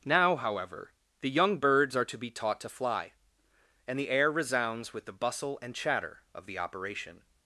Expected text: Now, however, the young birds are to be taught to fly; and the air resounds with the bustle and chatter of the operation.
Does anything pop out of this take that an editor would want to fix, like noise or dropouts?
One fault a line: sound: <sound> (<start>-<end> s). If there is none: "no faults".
no faults